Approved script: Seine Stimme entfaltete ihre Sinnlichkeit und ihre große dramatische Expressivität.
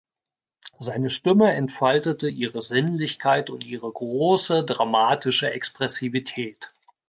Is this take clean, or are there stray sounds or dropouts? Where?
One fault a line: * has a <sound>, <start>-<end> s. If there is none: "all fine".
all fine